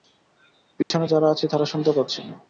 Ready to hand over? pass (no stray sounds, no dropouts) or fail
fail